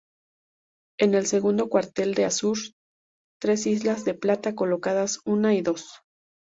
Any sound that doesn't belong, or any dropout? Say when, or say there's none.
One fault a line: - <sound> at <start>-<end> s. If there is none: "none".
none